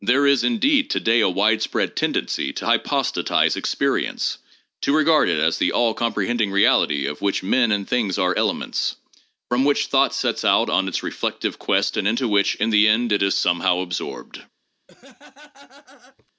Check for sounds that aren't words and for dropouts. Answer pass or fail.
fail